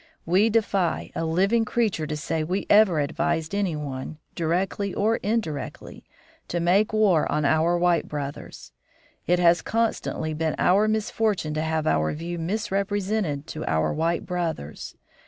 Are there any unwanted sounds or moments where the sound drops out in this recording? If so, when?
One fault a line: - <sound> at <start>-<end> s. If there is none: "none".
none